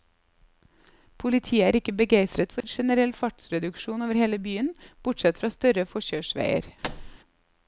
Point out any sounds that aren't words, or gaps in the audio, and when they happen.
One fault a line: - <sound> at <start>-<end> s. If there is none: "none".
- dropout at 2.6-2.6 s
- thud at 6.8-7.2 s